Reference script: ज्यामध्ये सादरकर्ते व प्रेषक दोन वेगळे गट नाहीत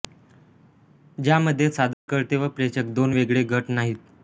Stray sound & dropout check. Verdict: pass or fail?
fail